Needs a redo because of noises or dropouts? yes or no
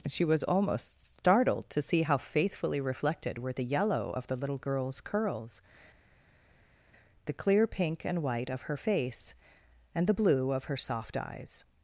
no